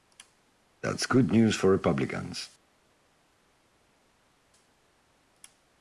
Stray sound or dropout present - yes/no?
no